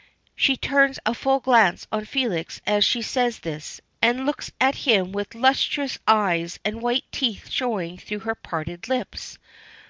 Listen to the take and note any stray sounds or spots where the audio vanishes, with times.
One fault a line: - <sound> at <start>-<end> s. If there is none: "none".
none